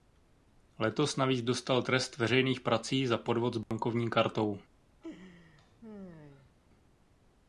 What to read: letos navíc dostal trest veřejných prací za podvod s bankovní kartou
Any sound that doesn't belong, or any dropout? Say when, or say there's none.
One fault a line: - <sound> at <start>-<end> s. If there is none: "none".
- dropout at 3.6-3.7 s
- laugh at 5.0-6.5 s